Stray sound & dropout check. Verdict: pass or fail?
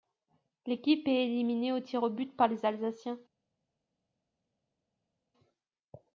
pass